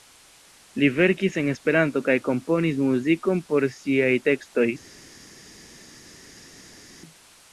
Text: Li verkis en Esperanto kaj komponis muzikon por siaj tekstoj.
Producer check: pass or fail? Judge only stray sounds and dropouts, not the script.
pass